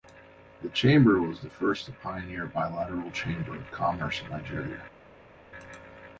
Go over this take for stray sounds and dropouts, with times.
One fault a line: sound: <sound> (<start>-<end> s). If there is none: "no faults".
no faults